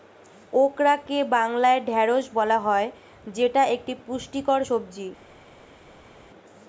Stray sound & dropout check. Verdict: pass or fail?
pass